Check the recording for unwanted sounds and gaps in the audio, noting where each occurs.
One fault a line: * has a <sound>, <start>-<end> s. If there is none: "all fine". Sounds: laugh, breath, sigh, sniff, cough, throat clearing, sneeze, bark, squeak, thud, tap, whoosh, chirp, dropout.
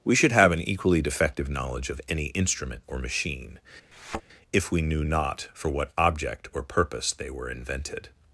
* has a thud, 3.9-4.2 s